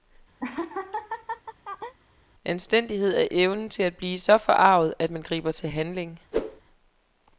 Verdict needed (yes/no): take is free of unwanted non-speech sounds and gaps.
no